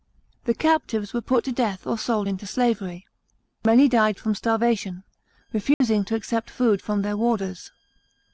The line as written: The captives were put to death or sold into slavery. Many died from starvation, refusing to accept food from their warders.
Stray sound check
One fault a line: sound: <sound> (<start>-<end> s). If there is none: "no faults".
sound: dropout (5.7-5.8 s)